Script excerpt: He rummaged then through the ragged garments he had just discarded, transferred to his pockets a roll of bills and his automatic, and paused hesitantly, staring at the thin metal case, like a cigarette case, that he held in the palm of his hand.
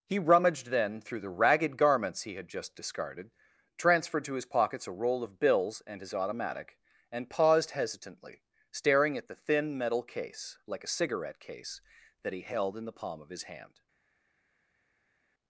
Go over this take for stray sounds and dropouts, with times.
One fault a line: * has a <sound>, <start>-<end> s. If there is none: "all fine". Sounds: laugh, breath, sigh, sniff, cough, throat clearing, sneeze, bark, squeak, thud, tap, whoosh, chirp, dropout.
all fine